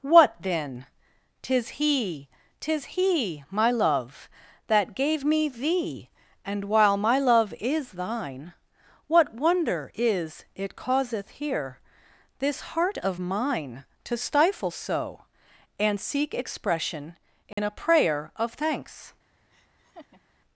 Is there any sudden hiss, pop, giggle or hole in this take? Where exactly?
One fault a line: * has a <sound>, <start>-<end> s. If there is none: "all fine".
* has a dropout, 17.5-17.6 s
* has a laugh, 19.5-20.2 s